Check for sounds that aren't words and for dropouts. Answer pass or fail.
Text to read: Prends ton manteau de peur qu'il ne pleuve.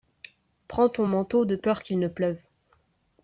pass